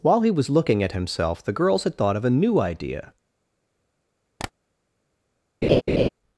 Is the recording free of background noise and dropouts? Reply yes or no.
no